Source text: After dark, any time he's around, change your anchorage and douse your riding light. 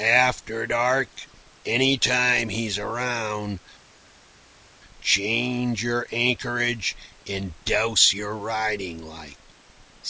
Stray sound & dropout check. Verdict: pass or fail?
pass